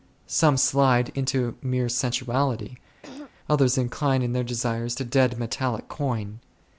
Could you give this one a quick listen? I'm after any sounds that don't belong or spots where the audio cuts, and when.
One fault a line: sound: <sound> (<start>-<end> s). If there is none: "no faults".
sound: throat clearing (3.0-3.3 s)